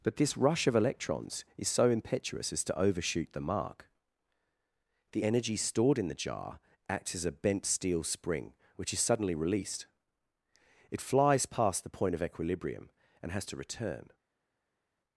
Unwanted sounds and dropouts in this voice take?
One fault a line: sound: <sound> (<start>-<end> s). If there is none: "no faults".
no faults